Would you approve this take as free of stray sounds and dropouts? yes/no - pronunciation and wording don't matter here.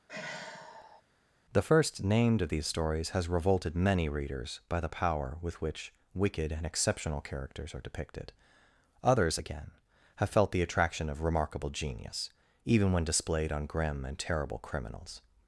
no